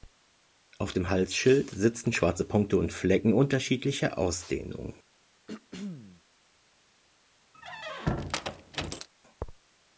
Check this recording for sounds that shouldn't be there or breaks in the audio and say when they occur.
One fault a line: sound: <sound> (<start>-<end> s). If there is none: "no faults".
sound: throat clearing (5.5-6.2 s)
sound: squeak (7.5-9.1 s)